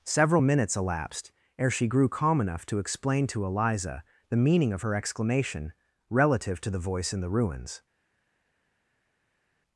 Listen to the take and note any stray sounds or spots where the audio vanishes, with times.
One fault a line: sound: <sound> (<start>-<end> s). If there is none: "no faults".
no faults